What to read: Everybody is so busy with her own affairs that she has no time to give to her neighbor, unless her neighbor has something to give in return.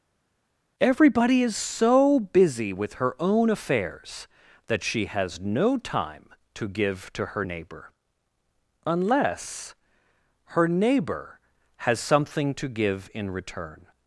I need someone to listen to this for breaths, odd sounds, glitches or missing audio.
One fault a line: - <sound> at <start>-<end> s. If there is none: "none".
none